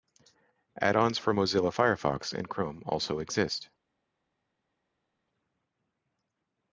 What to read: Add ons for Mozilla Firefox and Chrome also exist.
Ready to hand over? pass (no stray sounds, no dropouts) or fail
pass